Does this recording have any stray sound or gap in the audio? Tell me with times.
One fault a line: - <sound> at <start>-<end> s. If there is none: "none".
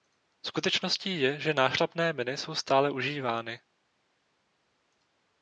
none